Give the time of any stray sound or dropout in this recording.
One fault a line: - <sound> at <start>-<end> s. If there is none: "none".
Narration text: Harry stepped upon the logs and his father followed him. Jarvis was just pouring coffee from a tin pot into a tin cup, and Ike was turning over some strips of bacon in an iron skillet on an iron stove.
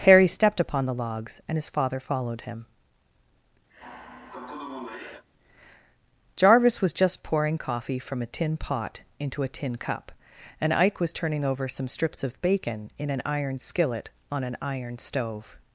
- sigh at 3.7-5.2 s